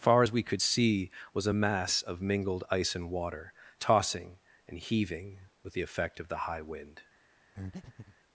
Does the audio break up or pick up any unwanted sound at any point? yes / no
yes